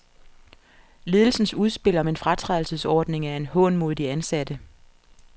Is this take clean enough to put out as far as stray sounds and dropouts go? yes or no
yes